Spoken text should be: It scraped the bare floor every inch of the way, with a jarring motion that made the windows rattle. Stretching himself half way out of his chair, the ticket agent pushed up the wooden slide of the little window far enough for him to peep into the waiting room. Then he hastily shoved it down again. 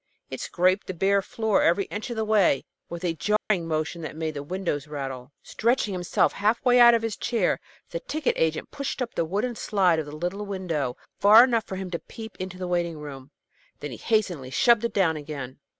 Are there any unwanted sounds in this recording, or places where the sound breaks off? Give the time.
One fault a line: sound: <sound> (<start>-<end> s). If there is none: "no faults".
sound: dropout (3.4-3.5 s)